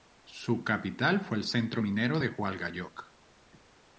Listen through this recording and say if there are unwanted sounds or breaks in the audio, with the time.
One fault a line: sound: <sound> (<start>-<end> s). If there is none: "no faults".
no faults